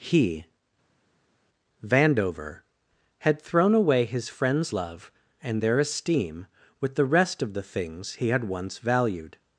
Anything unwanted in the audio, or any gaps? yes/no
no